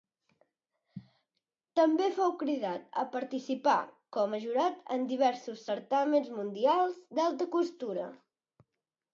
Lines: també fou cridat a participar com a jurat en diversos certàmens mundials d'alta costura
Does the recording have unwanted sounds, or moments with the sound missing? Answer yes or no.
no